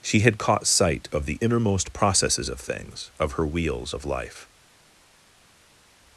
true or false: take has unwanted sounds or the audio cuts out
false